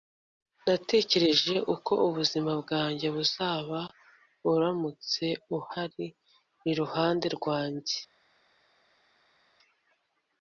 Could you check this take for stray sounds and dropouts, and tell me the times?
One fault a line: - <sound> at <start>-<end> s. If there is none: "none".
none